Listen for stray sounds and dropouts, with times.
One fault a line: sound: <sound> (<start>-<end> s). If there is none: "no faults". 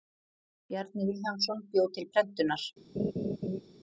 sound: laugh (3.0-3.6 s)